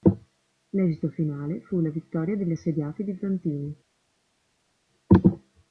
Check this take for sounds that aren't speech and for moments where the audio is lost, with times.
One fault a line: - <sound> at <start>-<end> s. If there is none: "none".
none